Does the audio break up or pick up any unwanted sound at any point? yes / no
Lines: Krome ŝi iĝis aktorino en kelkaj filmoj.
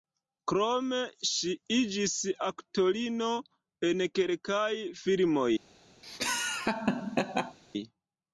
yes